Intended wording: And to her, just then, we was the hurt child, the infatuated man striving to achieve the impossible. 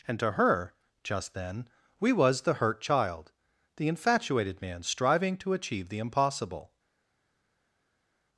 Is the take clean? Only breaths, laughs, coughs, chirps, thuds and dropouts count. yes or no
yes